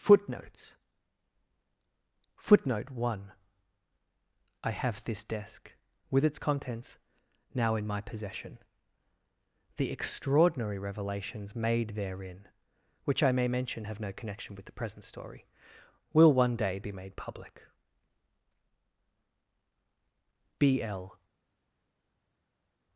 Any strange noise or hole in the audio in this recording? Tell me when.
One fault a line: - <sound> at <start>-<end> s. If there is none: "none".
none